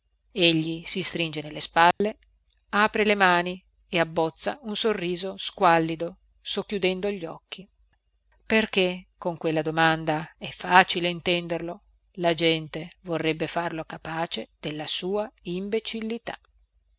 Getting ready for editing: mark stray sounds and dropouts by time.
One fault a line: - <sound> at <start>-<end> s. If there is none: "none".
- dropout at 1.9-2.0 s